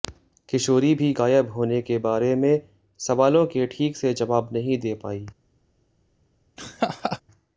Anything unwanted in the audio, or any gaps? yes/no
yes